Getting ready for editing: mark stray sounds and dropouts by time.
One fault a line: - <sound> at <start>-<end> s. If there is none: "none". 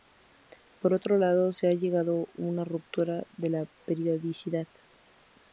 none